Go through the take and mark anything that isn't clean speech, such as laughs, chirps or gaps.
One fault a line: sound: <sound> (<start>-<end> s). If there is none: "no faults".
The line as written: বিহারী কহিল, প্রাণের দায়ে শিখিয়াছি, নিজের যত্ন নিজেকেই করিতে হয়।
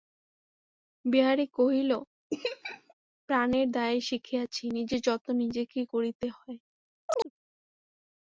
sound: laugh (2.3-2.9 s)
sound: chirp (7.1-7.3 s)